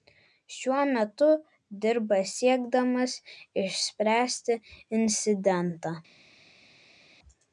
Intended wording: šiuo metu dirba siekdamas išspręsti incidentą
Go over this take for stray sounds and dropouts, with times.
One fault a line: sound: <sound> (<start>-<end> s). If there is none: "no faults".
no faults